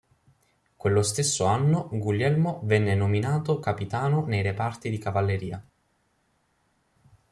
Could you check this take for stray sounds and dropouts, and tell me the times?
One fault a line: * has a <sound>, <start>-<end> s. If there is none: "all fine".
all fine